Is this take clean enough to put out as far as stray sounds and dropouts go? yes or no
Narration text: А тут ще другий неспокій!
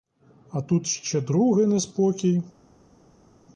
yes